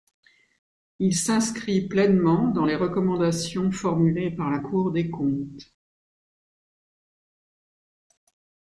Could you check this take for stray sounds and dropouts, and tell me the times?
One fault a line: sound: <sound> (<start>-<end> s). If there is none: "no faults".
no faults